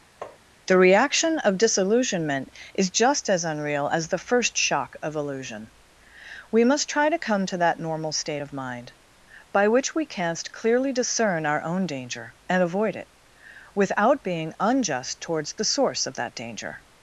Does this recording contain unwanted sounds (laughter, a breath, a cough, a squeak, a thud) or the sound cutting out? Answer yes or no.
yes